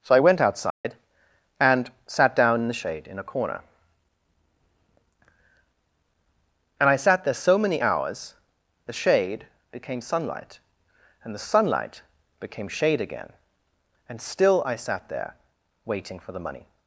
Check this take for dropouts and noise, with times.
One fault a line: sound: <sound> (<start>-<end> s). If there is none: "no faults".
sound: dropout (0.7-0.8 s)